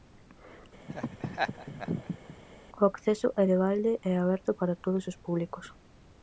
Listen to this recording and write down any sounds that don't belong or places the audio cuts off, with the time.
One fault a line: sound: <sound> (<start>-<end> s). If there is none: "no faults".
sound: laugh (0.9-2.4 s)